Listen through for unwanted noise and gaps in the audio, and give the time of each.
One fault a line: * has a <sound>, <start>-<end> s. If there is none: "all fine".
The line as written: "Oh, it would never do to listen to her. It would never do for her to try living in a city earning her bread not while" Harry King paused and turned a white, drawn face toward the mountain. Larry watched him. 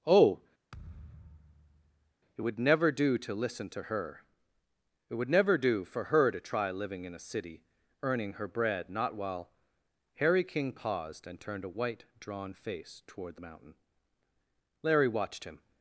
* has a thud, 0.7-2.1 s